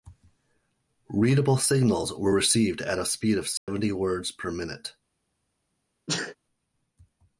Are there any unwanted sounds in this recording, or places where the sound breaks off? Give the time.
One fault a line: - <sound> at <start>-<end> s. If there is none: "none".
- dropout at 3.6-3.7 s
- sneeze at 6.1-6.4 s